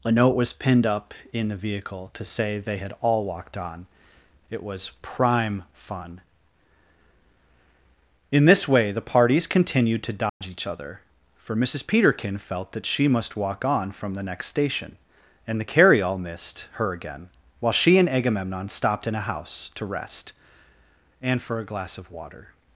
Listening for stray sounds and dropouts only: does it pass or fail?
fail